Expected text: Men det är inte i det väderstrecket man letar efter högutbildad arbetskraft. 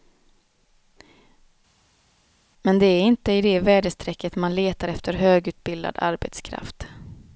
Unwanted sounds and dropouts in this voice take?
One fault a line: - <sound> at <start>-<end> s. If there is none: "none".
none